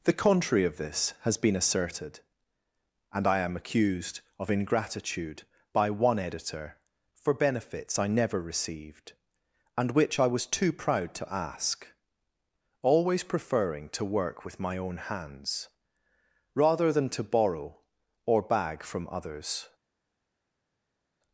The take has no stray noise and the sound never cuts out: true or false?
true